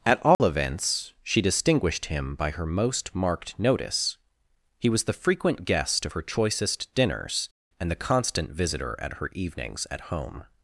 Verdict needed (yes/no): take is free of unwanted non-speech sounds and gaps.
no